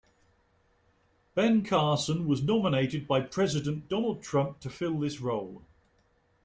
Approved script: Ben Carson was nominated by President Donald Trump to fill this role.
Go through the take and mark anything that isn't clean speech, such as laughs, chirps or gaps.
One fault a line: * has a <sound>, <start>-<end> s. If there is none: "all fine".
all fine